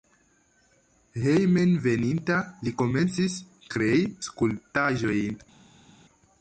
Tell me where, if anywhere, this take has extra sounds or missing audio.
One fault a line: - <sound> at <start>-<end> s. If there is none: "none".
none